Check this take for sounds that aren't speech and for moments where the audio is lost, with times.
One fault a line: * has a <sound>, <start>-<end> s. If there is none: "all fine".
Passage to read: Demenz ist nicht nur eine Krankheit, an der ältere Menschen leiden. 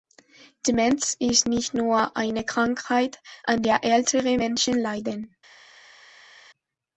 all fine